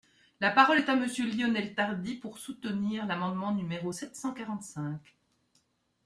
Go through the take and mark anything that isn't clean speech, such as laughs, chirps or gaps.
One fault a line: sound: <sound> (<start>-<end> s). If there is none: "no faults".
no faults